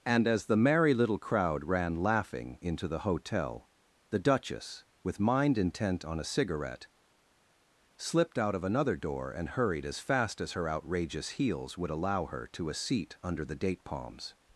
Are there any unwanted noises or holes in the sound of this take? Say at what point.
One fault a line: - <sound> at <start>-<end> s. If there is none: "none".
none